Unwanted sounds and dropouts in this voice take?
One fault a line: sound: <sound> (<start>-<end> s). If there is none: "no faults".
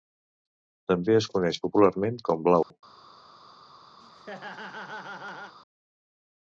sound: dropout (2.6-2.7 s)
sound: laugh (4.0-5.6 s)